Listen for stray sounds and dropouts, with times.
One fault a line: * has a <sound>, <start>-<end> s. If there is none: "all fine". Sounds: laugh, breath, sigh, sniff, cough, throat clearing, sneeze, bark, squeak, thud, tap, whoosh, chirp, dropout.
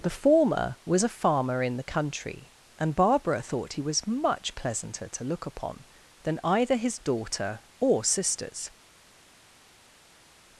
all fine